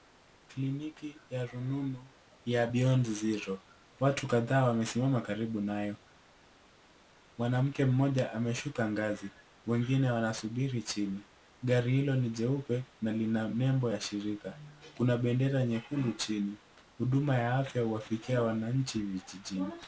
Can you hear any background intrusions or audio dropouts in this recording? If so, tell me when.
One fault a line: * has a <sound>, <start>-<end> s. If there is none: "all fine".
all fine